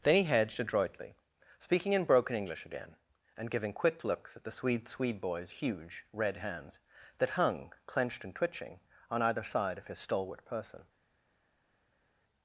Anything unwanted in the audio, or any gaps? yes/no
no